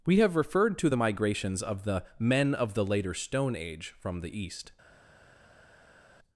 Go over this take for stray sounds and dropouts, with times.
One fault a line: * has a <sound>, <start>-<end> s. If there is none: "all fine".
all fine